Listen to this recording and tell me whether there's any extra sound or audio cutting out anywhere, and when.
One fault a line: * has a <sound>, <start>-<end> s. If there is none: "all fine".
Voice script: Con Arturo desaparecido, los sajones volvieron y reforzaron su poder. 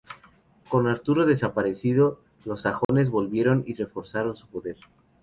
* has a dropout, 2.8-2.9 s